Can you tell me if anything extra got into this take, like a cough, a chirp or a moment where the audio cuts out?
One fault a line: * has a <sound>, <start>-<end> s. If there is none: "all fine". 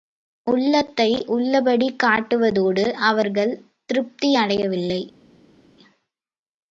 all fine